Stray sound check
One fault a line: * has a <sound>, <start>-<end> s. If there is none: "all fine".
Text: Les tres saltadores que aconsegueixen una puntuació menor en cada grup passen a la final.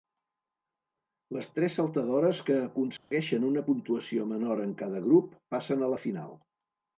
* has a dropout, 3.0-3.1 s